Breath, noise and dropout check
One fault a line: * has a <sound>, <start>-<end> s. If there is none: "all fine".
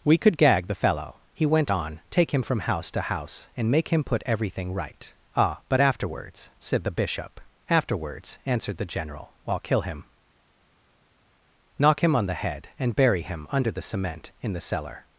all fine